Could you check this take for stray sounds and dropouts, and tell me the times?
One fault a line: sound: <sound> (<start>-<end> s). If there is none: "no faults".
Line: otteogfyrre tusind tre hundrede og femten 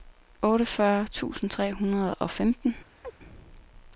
sound: chirp (3.0-3.1 s)